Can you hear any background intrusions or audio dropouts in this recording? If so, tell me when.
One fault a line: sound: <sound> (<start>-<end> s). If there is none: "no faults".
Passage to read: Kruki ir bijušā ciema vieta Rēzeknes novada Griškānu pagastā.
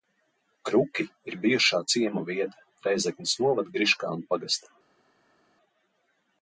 no faults